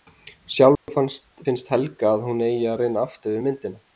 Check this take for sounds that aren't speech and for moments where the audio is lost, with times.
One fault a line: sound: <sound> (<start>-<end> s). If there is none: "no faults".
sound: dropout (0.8-0.9 s)